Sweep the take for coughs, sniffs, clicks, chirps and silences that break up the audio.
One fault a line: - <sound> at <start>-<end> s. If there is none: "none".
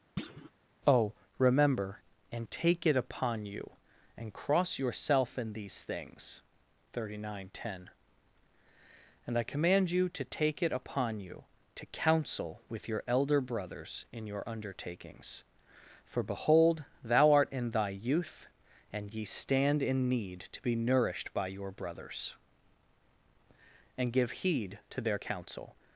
- thud at 0.2-0.5 s